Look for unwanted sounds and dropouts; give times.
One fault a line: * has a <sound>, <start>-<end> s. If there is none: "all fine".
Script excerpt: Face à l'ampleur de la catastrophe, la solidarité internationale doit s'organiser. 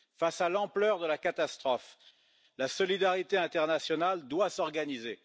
all fine